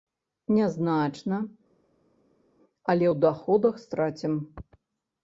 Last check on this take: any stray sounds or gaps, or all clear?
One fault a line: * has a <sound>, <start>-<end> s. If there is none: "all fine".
all fine